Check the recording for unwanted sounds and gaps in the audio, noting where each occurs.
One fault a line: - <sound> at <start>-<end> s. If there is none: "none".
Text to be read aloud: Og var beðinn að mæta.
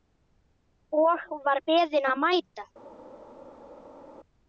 none